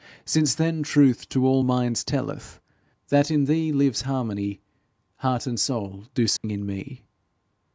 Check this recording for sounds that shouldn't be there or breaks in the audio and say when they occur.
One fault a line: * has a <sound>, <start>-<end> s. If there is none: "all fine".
* has a dropout, 6.4-6.4 s